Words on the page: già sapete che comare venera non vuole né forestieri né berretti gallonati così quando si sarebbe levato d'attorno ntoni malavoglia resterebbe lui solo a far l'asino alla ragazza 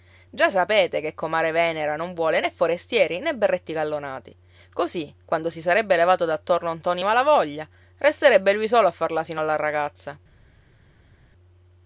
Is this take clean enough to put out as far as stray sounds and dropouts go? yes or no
yes